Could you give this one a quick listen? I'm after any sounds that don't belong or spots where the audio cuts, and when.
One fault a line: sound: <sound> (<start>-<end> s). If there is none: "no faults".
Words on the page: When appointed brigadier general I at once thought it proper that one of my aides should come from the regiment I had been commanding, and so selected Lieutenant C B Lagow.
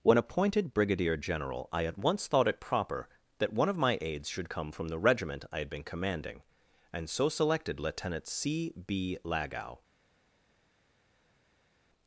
no faults